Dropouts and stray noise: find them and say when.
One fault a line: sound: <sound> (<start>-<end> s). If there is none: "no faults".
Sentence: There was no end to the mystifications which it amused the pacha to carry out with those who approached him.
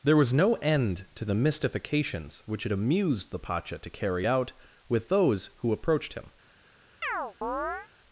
sound: chirp (7.0-7.9 s)